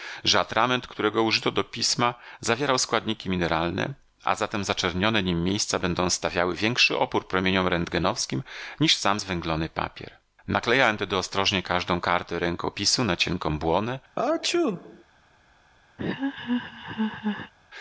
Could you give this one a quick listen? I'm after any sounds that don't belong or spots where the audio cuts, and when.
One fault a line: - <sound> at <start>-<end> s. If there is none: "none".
- sneeze at 14.2-15.0 s
- laugh at 16.0-17.5 s